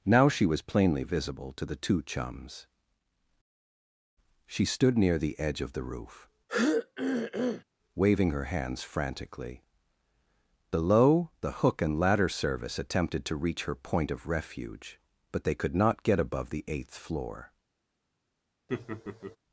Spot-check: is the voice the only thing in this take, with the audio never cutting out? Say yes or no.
no